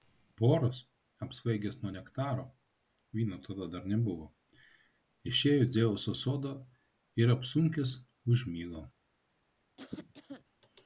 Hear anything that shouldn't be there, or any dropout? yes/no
yes